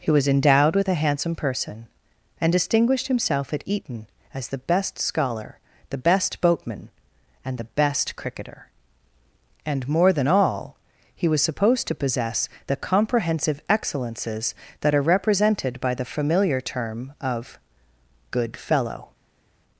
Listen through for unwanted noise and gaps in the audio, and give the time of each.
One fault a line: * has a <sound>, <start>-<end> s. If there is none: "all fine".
all fine